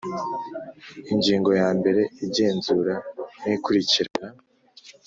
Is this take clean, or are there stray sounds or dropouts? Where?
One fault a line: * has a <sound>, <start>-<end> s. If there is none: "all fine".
all fine